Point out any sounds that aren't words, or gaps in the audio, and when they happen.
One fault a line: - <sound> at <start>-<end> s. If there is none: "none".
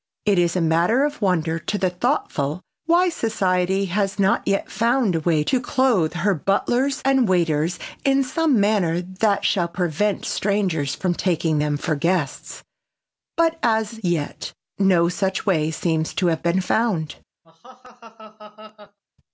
- laugh at 17.4-19.0 s